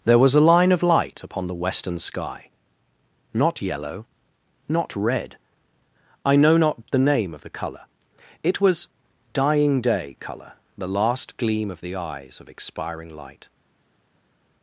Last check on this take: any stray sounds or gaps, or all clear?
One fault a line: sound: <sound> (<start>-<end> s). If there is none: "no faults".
no faults